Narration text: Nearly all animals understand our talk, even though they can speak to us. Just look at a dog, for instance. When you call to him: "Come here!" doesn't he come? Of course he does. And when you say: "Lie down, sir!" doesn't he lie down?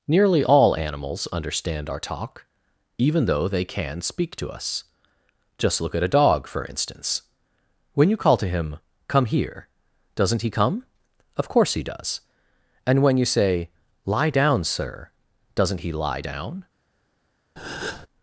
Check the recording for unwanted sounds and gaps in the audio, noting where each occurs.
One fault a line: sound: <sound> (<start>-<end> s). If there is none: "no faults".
sound: breath (17.6-18.1 s)